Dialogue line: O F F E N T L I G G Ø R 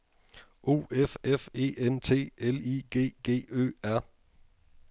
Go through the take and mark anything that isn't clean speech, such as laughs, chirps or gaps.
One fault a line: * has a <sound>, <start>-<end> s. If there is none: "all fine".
all fine